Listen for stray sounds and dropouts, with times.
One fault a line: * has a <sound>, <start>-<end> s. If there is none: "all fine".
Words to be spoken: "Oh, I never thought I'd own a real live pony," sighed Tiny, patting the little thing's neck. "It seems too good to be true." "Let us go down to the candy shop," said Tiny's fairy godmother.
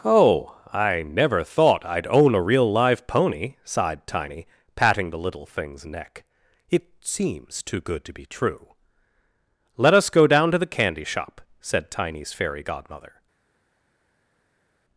all fine